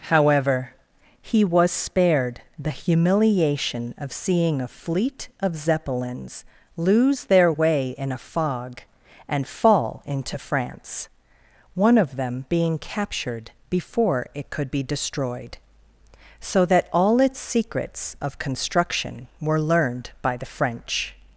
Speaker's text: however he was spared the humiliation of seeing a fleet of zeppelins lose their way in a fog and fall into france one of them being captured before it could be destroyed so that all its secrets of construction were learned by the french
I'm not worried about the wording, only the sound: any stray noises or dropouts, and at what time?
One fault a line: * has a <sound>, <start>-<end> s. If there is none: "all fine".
all fine